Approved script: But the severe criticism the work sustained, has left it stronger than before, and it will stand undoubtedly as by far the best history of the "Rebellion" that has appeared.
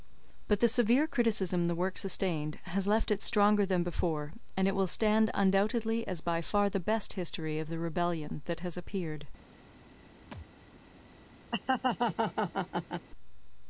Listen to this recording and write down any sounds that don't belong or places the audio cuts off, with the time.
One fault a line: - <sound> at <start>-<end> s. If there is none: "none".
- thud at 10.3-10.5 s
- laugh at 11.5-13.1 s